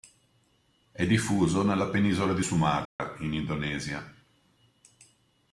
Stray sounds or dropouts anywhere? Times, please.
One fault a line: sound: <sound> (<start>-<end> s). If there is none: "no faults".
sound: dropout (2.9-3.0 s)